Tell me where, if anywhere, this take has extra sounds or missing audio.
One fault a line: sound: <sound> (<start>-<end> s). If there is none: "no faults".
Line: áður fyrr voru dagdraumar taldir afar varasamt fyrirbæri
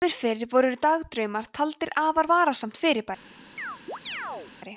sound: chirp (3.6-4.5 s)